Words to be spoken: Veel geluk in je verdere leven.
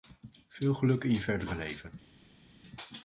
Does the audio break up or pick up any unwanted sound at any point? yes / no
no